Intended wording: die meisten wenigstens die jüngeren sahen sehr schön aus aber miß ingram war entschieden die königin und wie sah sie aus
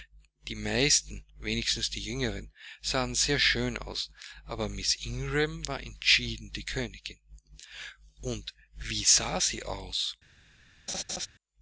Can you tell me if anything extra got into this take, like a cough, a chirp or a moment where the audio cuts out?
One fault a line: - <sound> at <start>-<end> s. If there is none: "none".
- laugh at 10.9-11.3 s